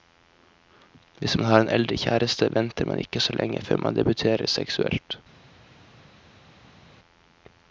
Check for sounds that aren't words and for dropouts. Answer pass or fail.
pass